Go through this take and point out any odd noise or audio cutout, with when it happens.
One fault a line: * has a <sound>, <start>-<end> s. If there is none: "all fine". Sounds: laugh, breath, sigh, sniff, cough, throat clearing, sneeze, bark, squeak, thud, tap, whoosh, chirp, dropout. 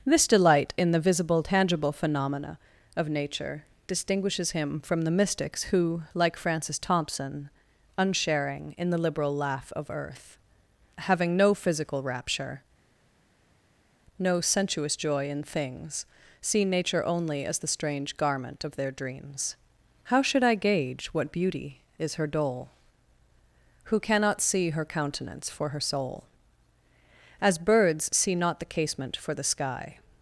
all fine